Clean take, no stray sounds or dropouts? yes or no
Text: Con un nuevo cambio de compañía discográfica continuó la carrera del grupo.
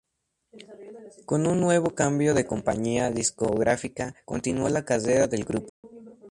no